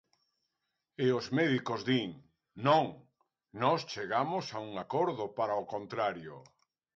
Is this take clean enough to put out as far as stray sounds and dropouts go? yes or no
yes